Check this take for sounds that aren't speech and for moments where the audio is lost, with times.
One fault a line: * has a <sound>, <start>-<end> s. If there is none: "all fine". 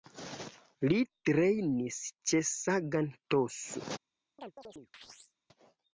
* has a chirp, 4.4-5.3 s